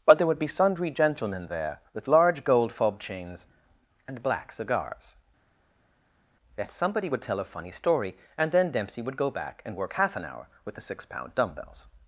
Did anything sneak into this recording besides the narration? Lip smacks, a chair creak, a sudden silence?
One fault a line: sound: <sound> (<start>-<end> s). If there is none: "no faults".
no faults